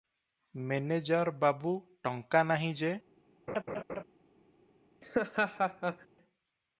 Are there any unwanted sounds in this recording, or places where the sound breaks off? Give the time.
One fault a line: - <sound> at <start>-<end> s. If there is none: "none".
- laugh at 3.5-4.0 s
- laugh at 5.0-6.1 s